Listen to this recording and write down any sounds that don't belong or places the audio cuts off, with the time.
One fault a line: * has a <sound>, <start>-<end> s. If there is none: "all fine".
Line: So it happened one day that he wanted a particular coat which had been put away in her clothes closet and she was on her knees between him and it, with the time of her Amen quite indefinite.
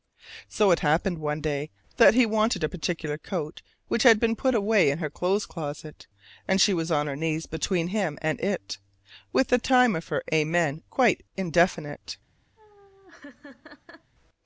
* has a laugh, 12.6-14.1 s